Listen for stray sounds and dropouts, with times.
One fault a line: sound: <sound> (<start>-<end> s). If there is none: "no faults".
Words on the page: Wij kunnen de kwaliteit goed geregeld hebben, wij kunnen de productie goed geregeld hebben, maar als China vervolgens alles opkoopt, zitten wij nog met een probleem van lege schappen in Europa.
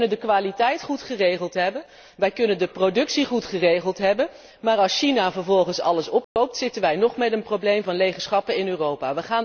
sound: dropout (6.2-6.4 s)